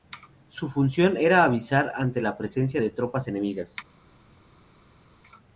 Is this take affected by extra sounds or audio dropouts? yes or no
no